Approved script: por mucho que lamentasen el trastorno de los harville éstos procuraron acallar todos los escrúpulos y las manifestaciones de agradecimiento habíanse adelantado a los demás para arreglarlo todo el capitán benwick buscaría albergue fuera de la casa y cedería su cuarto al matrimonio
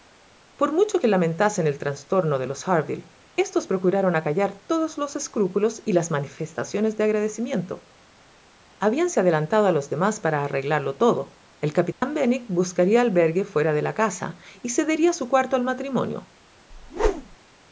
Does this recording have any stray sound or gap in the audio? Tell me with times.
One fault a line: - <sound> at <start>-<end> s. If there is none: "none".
- dropout at 11.9-12.0 s
- whoosh at 16.7-17.4 s